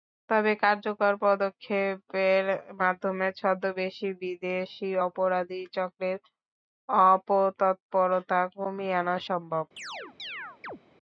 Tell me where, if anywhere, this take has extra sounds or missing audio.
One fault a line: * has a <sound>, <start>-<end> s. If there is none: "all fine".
* has a chirp, 9.8-10.8 s